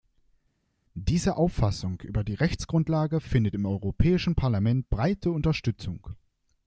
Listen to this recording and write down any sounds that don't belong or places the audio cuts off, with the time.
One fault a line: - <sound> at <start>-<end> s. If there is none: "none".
none